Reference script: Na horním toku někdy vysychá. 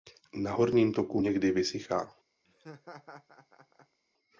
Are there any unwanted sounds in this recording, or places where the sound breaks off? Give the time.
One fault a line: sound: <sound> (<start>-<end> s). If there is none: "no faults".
sound: laugh (2.4-4.0 s)